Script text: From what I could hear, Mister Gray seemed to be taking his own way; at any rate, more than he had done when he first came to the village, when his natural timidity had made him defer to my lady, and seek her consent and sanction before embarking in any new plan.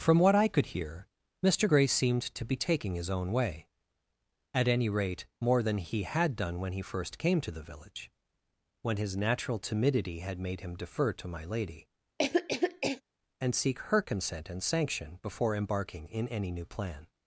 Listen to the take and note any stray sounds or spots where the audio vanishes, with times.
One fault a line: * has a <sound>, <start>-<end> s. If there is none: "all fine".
* has a cough, 12.2-13.0 s